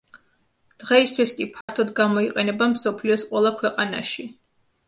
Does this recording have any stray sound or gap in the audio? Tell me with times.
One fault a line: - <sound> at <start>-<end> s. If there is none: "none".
- dropout at 1.6-1.7 s